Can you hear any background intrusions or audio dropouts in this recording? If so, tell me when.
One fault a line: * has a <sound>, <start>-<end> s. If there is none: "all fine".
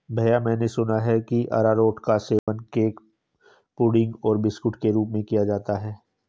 * has a dropout, 2.4-2.5 s